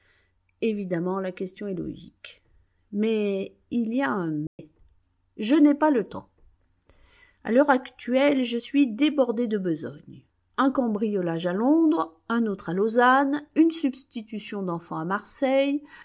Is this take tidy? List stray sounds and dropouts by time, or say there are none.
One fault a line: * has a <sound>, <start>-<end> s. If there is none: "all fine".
* has a dropout, 4.5-4.6 s